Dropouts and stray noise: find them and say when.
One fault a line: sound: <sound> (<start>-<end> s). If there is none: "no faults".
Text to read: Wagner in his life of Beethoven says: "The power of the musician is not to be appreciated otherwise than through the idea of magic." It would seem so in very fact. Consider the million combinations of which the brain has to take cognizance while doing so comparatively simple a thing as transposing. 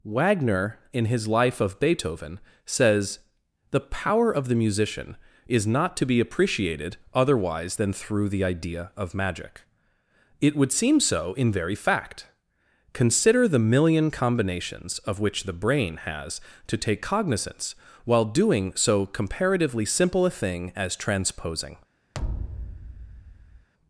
sound: thud (22.1-23.7 s)